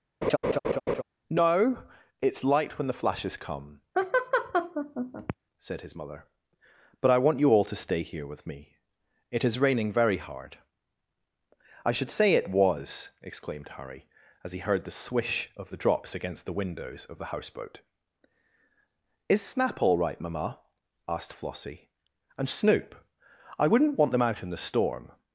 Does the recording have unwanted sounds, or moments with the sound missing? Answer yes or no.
yes